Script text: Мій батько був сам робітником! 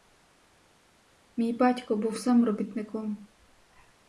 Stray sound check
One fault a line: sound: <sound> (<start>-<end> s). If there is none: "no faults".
no faults